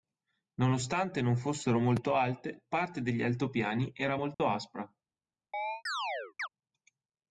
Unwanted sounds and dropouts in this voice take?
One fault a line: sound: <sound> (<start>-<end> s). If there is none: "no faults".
sound: dropout (4.3-4.4 s)
sound: chirp (5.5-6.5 s)